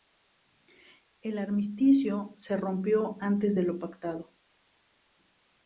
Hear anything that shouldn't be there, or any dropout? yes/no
no